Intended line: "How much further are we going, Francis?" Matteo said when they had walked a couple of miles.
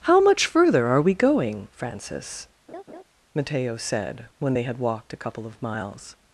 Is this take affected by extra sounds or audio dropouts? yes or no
yes